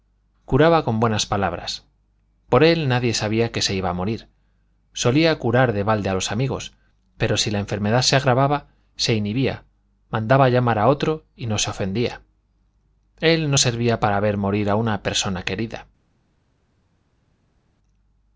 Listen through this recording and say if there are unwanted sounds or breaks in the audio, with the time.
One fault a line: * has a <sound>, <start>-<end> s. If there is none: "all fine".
all fine